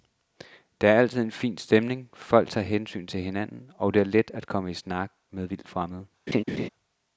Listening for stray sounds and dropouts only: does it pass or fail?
fail